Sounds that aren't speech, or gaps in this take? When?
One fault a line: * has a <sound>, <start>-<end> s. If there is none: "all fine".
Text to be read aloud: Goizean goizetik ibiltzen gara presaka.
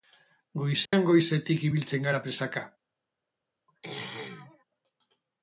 * has a dropout, 0.9-0.9 s
* has a throat clearing, 3.7-4.6 s